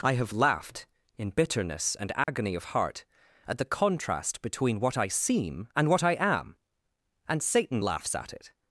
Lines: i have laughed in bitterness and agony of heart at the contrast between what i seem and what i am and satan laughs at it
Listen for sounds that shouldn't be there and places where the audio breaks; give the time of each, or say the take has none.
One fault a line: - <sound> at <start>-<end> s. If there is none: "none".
- dropout at 2.2-2.3 s